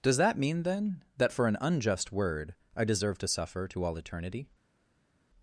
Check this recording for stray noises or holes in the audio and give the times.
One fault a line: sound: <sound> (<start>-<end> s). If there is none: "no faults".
no faults